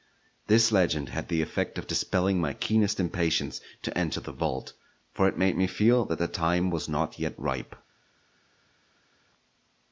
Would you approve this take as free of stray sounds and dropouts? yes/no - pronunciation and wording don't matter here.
yes